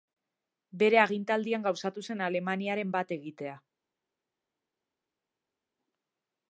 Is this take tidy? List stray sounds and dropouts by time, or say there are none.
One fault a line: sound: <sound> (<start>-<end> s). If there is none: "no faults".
no faults